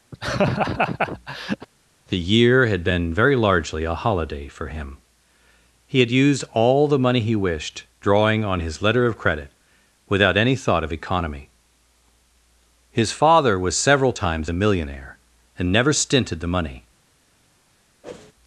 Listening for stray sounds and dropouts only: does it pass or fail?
fail